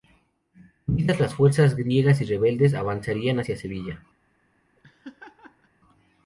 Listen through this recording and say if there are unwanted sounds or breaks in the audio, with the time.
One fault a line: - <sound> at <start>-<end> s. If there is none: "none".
- laugh at 4.8-5.7 s